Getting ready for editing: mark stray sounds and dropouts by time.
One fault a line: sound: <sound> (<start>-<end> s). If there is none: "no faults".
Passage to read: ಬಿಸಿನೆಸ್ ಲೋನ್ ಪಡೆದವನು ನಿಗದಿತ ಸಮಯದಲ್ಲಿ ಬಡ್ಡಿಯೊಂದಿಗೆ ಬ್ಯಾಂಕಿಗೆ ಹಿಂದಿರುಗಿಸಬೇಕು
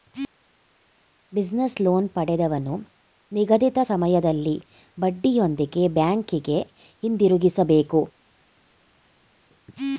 no faults